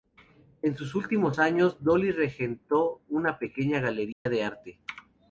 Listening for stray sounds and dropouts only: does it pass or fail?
fail